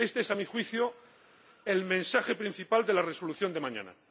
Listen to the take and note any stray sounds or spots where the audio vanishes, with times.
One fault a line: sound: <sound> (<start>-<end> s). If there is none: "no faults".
no faults